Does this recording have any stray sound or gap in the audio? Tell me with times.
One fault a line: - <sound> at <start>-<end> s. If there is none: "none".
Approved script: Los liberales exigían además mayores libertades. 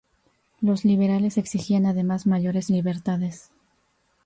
none